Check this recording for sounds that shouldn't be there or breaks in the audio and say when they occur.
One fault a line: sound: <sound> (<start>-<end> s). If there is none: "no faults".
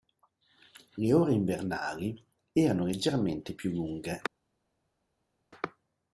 no faults